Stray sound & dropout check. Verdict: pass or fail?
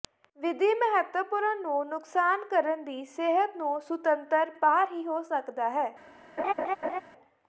fail